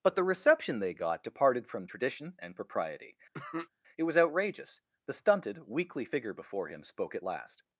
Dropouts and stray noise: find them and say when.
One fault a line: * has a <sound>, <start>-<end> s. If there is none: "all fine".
* has a cough, 3.3-3.7 s